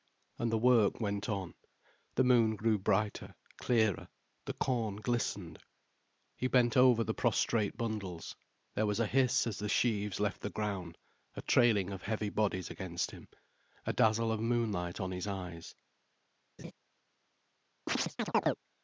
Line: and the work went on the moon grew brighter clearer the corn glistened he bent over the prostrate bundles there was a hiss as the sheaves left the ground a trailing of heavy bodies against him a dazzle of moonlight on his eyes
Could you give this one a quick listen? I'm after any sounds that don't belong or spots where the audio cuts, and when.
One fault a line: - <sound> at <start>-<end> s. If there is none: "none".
- laugh at 16.6-16.7 s
- chirp at 17.9-18.6 s